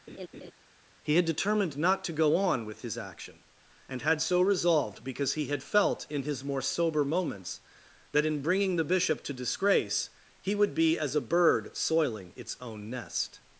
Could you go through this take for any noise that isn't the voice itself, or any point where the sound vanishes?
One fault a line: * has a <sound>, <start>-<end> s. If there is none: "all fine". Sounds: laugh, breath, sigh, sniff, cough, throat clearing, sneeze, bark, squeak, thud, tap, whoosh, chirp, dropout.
* has a laugh, 0.1-0.5 s